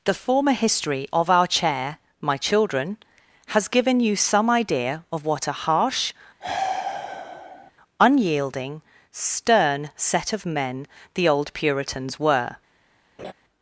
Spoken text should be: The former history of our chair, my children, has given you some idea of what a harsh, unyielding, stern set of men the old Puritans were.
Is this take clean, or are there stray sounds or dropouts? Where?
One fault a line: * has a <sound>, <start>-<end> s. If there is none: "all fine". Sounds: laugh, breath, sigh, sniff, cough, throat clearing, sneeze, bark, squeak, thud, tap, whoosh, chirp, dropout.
* has a sniff, 6.4-7.7 s
* has a laugh, 13.2-13.3 s